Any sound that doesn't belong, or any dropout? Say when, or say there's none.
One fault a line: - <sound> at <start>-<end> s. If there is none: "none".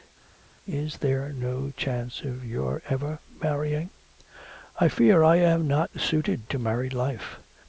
none